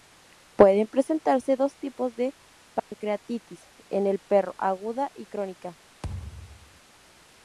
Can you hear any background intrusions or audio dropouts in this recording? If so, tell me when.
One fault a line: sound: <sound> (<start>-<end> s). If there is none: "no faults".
sound: dropout (2.8-2.9 s)
sound: thud (6.0-6.8 s)